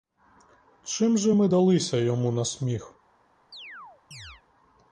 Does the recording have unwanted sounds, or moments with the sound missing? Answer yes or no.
yes